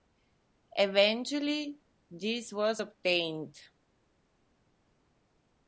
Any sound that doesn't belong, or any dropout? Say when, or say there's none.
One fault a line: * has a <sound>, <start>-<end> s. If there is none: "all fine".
all fine